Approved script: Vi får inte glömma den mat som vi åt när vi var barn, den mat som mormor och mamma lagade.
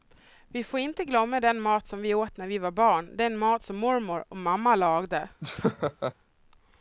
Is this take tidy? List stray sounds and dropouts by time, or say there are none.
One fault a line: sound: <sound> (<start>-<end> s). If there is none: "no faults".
sound: laugh (5.4-6.1 s)